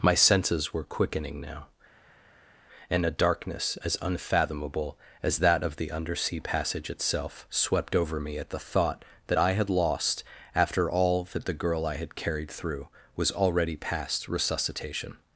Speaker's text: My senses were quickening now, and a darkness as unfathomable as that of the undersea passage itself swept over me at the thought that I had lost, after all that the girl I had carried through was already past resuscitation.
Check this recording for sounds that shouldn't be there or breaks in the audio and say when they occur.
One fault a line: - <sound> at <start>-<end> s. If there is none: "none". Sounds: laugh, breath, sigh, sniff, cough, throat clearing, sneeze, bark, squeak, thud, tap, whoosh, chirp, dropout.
none